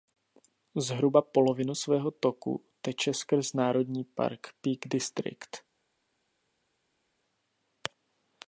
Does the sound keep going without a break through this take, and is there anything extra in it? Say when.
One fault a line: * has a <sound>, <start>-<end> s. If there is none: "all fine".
all fine